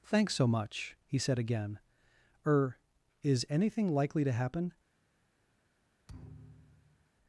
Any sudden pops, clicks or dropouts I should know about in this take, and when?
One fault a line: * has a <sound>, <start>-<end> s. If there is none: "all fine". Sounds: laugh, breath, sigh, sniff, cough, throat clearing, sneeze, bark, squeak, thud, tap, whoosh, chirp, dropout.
* has a thud, 6.1-7.1 s